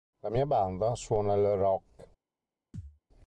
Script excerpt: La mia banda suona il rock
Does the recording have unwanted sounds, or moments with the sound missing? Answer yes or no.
yes